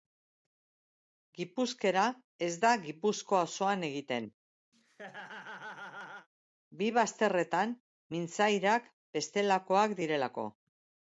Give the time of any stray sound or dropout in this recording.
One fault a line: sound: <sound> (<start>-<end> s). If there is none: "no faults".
sound: laugh (4.7-6.3 s)